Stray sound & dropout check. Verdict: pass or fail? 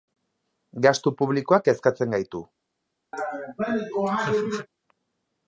fail